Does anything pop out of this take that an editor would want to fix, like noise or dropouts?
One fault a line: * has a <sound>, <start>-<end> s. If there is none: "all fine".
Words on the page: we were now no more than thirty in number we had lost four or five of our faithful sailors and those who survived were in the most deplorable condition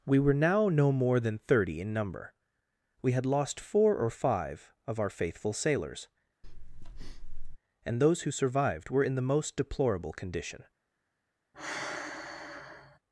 * has a breath, 6.4-7.6 s
* has a sigh, 11.5-13.0 s